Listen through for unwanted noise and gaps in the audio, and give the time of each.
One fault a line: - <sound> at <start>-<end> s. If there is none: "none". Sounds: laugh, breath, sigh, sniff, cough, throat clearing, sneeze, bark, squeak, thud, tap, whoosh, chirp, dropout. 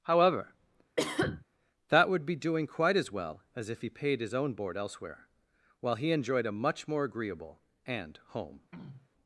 - cough at 1.0-1.4 s
- throat clearing at 8.7-9.1 s